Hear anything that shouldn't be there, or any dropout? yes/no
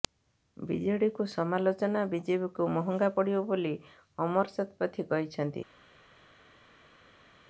no